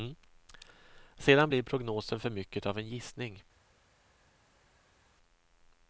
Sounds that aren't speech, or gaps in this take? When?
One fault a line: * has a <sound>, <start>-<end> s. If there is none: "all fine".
all fine